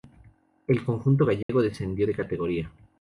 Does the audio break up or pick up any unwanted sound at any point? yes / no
yes